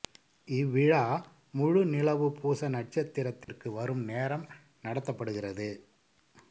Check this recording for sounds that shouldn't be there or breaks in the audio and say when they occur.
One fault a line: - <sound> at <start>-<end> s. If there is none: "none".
- dropout at 3.4-3.5 s